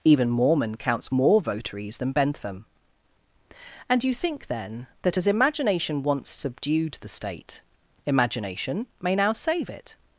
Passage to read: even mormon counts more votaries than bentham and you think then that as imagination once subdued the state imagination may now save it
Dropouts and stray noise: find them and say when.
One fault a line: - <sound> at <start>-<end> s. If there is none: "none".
none